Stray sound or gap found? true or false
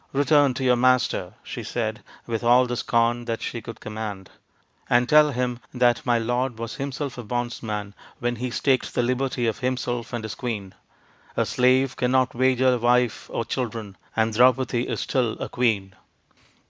false